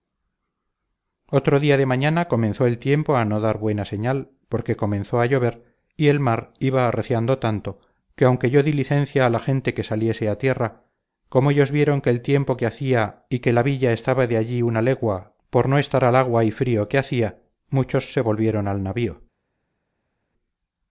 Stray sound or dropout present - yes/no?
no